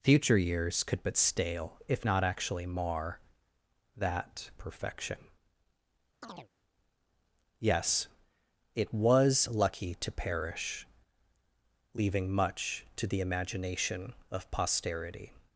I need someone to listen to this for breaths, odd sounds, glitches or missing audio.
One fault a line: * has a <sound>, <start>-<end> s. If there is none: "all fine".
* has a chirp, 6.2-6.5 s